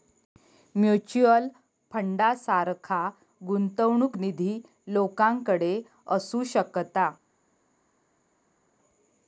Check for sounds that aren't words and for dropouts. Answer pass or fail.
pass